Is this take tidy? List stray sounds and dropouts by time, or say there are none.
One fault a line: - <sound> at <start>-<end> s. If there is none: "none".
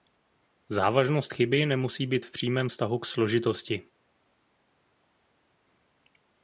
none